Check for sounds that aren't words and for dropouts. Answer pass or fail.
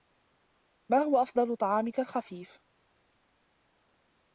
pass